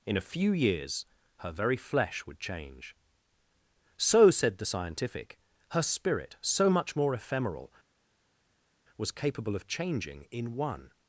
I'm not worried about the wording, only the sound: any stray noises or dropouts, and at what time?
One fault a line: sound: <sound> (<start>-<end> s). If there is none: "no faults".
no faults